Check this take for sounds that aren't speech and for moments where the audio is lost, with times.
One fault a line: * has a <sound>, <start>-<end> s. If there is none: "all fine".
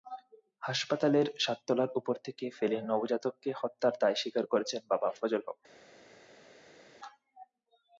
all fine